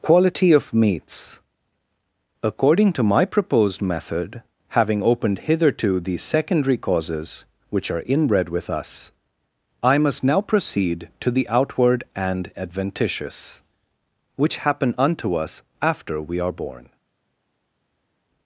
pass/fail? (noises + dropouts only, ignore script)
pass